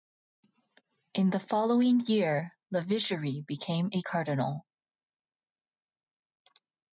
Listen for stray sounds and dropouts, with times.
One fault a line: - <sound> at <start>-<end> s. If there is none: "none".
none